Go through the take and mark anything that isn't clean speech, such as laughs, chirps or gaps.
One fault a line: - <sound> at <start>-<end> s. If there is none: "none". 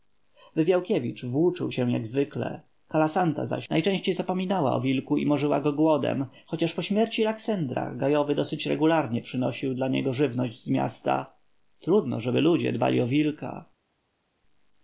none